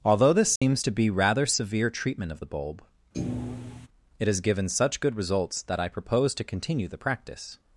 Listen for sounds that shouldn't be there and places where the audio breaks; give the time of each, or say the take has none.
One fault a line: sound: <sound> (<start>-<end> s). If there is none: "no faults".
sound: dropout (0.6-0.6 s)
sound: thud (3.1-3.9 s)